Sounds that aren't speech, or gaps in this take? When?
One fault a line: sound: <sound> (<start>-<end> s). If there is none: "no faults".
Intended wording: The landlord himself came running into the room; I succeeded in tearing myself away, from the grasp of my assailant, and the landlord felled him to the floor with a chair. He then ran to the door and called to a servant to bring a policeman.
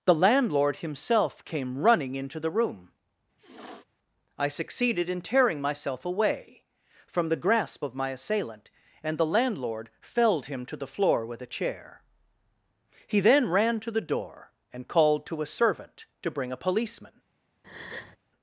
sound: sniff (3.4-3.8 s)
sound: breath (17.6-18.2 s)